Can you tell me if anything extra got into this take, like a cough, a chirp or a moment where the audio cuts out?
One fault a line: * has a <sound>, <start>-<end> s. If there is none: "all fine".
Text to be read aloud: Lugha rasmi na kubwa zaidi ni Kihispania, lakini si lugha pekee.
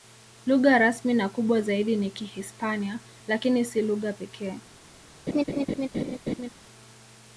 * has a laugh, 5.3-6.5 s